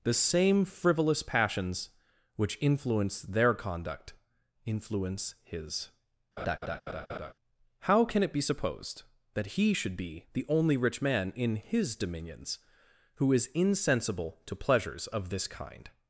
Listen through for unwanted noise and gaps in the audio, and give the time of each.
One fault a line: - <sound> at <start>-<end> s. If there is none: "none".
- laugh at 6.4-7.3 s